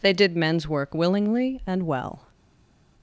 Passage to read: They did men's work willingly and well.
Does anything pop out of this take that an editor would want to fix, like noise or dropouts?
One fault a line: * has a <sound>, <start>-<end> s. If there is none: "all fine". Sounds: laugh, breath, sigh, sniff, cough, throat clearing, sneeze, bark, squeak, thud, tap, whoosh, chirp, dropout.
all fine